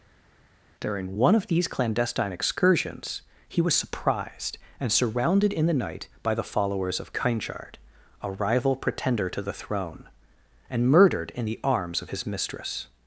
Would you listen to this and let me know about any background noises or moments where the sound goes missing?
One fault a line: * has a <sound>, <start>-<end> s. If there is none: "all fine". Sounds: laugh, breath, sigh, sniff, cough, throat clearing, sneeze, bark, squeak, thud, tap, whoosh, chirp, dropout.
all fine